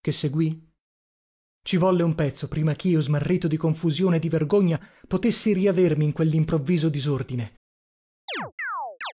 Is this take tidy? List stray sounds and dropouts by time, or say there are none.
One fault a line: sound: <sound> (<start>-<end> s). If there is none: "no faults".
sound: chirp (8.3-9.1 s)